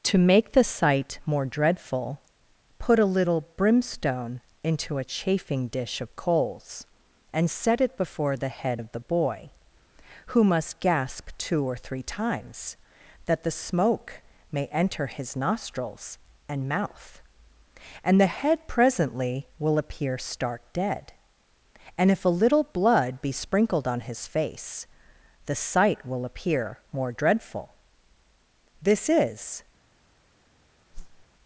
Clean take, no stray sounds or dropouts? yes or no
no